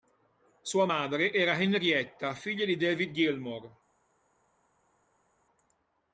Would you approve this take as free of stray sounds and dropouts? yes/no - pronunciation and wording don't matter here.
yes